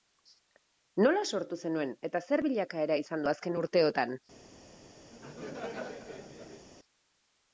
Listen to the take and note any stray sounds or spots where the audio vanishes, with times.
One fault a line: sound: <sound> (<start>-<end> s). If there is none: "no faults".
sound: laugh (5.1-6.7 s)